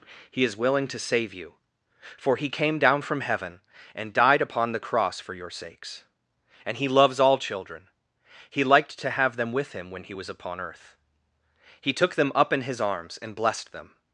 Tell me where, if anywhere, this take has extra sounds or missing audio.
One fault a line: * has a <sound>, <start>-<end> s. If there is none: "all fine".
all fine